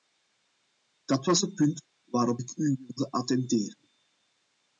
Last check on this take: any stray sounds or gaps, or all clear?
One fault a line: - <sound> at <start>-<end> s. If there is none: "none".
none